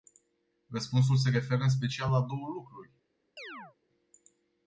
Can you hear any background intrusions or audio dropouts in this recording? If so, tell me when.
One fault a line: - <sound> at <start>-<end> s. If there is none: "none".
- chirp at 3.4-3.8 s